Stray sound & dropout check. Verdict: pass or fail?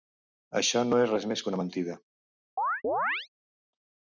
fail